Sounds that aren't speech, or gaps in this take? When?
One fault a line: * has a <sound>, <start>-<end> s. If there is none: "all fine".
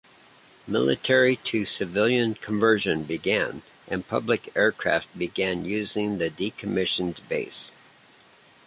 all fine